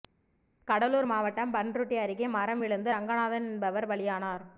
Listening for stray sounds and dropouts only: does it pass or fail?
pass